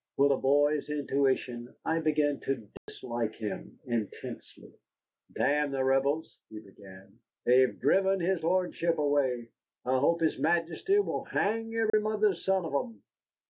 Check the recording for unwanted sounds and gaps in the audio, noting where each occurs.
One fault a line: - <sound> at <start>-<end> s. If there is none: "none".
- dropout at 2.8-2.9 s
- dropout at 11.9-11.9 s